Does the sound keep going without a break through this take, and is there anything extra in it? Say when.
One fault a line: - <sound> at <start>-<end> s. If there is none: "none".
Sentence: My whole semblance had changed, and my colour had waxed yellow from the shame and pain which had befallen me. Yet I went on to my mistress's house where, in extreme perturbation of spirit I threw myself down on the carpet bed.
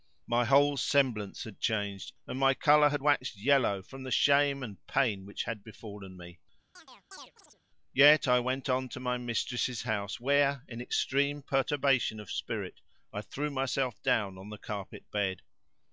- chirp at 6.8-7.6 s